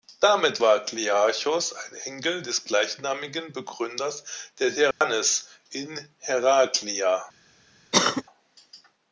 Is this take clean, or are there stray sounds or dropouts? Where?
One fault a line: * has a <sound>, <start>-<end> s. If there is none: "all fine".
* has a dropout, 4.9-5.0 s
* has a cough, 7.9-8.2 s